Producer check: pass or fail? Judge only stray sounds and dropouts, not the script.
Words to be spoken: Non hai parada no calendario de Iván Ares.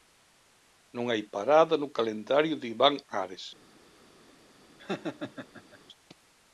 fail